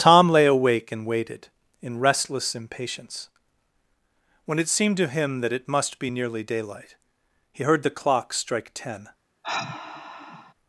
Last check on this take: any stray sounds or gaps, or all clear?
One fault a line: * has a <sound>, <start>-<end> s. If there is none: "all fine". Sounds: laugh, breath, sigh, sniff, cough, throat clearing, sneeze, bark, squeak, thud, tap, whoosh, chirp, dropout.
* has a sigh, 9.4-10.5 s